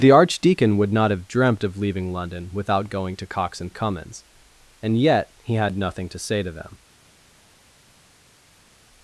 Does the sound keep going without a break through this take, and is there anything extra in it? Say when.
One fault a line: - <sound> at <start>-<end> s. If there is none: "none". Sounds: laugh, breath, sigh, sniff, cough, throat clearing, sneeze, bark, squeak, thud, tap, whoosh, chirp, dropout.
none